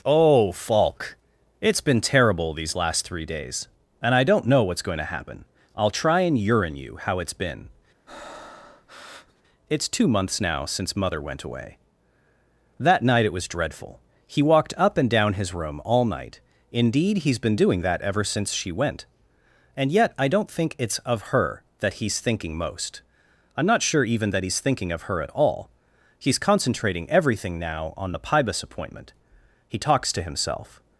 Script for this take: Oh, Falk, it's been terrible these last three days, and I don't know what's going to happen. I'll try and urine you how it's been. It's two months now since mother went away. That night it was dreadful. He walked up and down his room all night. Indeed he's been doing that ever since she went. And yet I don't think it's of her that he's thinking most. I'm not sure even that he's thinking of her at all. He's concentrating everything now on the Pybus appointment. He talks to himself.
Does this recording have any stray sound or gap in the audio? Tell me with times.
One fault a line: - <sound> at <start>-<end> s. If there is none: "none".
- breath at 8.1-9.4 s